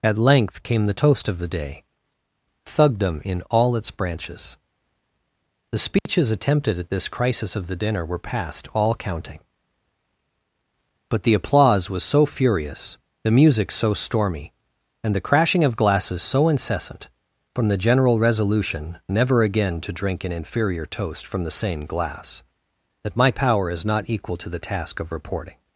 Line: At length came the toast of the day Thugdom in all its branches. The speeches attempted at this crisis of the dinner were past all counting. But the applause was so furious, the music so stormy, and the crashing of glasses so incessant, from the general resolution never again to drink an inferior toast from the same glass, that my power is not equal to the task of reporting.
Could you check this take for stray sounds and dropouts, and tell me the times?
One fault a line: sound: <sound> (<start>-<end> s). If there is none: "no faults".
sound: dropout (6.0-6.1 s)